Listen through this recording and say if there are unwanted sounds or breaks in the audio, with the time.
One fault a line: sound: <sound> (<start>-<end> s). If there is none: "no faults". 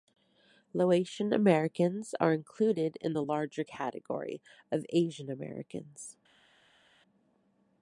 no faults